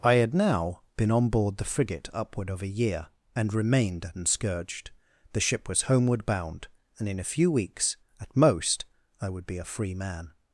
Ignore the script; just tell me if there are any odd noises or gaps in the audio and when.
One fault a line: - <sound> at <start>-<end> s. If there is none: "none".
none